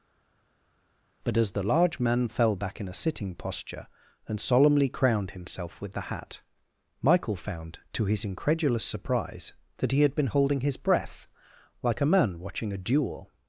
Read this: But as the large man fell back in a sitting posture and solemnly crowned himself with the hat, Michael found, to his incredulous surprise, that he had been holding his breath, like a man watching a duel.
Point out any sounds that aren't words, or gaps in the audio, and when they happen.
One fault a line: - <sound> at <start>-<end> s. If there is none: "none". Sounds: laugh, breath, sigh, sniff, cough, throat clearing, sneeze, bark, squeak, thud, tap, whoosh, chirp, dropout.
none